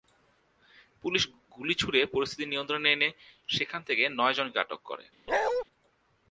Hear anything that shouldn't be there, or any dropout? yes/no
yes